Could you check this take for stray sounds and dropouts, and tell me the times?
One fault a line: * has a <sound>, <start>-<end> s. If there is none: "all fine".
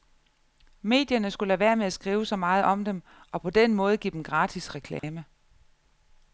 * has a dropout, 5.0-5.0 s